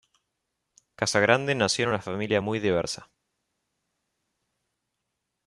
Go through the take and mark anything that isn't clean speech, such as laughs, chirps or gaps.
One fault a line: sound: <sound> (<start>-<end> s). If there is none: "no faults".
no faults